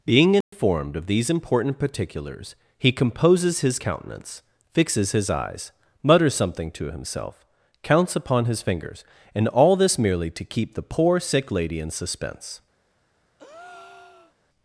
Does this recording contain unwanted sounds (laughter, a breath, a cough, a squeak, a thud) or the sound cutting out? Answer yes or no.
yes